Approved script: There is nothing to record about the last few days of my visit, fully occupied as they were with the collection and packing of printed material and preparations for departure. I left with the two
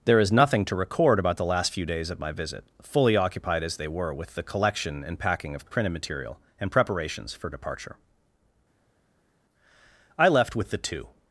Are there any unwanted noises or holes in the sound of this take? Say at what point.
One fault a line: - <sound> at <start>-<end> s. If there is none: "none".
none